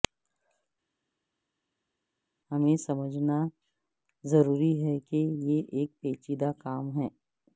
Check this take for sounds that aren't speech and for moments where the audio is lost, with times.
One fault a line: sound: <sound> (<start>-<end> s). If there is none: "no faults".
no faults